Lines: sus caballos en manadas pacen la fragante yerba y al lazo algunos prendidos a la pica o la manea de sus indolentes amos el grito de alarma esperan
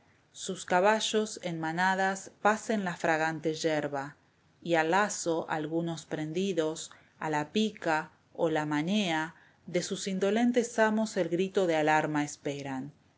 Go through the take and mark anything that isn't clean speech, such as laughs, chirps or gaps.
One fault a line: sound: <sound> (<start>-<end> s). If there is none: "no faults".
no faults